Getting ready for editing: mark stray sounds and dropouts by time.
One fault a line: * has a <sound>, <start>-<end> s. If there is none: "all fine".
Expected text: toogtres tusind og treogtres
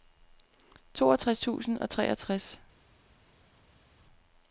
all fine